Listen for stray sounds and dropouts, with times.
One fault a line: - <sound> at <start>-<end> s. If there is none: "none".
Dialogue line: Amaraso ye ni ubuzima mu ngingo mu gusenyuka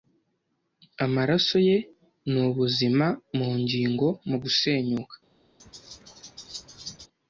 - laugh at 5.6-7.1 s